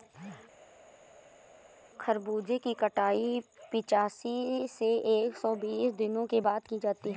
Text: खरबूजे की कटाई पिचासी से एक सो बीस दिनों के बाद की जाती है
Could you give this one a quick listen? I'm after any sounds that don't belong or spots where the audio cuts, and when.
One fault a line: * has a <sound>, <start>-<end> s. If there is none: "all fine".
all fine